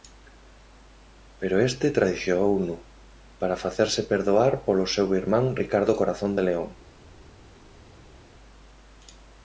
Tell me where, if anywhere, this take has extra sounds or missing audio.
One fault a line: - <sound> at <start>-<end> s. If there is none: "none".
none